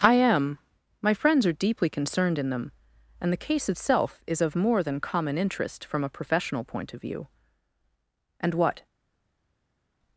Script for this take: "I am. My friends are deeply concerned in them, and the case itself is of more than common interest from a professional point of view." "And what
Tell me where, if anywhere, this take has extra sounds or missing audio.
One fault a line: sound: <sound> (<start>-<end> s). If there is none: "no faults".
no faults